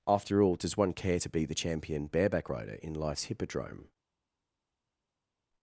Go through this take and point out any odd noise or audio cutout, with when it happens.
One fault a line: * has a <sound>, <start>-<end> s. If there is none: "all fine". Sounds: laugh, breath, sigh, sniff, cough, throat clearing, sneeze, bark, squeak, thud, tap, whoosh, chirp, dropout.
all fine